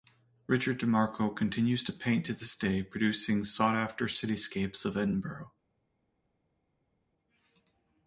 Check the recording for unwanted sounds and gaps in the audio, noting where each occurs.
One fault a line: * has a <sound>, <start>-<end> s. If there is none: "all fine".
all fine